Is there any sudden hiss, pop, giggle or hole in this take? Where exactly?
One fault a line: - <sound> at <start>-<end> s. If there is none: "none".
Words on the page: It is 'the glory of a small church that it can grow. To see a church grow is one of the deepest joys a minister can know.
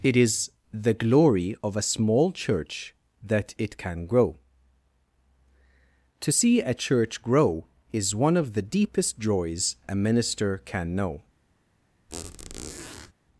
- squeak at 12.1-13.1 s